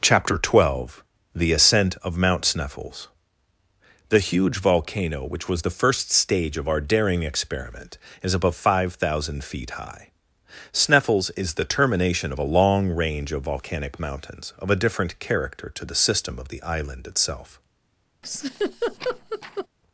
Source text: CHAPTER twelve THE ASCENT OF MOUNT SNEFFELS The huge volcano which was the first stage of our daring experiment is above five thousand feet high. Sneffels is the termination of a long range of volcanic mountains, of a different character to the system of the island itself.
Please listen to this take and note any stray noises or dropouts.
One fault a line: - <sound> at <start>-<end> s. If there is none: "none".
- laugh at 18.2-19.7 s